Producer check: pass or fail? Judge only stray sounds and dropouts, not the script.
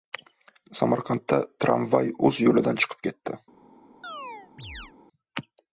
fail